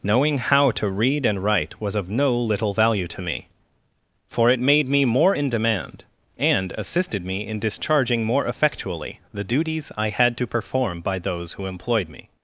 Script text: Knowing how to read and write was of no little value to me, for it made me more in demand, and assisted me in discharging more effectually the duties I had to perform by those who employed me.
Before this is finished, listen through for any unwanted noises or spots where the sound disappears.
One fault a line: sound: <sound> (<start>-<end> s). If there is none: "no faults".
no faults